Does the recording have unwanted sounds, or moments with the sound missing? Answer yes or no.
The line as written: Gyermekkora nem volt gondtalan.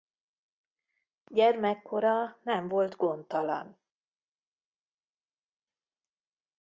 no